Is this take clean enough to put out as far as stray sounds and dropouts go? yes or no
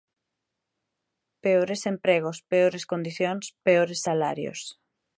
yes